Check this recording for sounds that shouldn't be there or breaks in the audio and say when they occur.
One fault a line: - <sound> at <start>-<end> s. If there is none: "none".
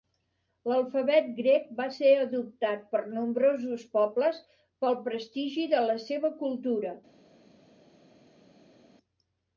none